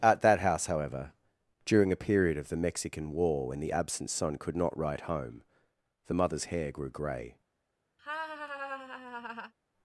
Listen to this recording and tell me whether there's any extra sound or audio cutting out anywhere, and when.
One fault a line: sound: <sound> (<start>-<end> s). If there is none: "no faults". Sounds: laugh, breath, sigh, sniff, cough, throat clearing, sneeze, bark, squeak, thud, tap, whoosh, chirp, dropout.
sound: laugh (8.0-9.5 s)